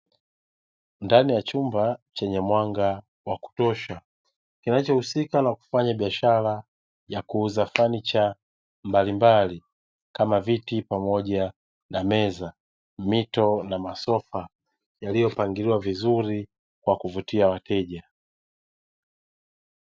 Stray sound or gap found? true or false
false